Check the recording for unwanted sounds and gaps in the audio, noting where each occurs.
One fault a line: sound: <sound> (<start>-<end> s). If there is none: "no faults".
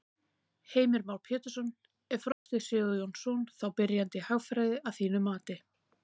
sound: dropout (2.3-2.5 s)